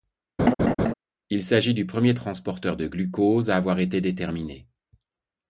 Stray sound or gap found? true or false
true